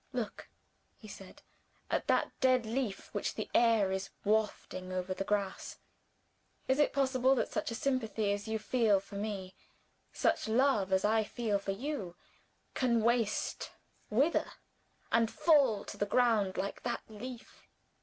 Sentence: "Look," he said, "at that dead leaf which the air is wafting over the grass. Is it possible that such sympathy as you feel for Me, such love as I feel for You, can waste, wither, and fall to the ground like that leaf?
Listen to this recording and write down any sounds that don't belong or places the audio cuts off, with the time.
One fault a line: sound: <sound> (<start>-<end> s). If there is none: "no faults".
no faults